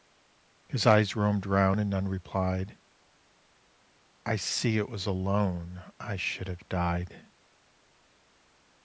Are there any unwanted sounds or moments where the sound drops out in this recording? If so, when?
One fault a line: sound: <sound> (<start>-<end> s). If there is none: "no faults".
no faults